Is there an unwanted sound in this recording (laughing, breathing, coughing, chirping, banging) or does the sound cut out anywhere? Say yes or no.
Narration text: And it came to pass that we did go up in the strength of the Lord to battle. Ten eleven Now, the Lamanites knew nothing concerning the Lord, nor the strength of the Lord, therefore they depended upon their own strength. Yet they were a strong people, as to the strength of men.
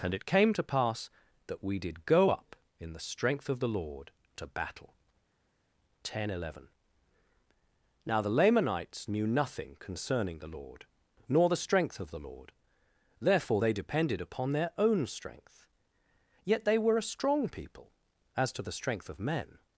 no